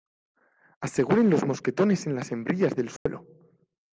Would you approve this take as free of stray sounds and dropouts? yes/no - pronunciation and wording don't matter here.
no